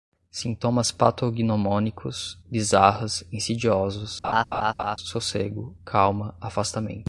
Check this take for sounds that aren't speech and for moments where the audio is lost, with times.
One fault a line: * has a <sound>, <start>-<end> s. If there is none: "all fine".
* has a laugh, 4.2-5.0 s